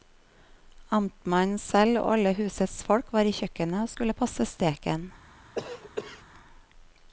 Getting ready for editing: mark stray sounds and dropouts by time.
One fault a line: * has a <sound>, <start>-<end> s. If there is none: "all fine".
* has a cough, 5.5-6.2 s